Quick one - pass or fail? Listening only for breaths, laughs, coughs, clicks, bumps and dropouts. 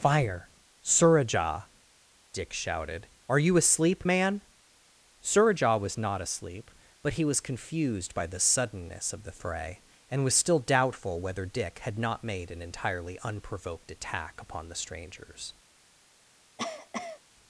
fail